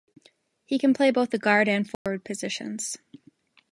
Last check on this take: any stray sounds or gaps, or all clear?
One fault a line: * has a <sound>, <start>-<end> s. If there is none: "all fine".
* has a dropout, 1.9-2.1 s